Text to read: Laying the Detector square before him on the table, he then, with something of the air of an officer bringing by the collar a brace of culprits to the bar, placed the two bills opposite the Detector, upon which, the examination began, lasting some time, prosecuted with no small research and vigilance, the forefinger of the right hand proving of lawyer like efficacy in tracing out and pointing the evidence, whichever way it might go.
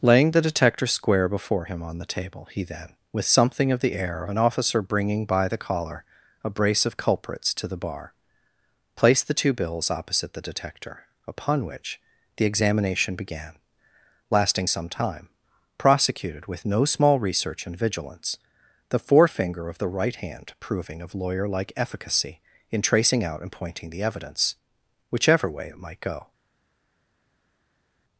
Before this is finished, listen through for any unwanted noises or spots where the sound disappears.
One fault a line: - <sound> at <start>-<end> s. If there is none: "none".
none